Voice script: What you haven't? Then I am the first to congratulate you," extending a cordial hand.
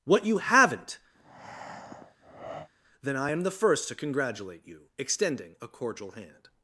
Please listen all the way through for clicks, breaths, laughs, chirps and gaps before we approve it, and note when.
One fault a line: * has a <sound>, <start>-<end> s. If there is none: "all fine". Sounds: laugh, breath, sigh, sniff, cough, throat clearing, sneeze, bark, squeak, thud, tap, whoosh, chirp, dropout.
* has a breath, 1.1-2.7 s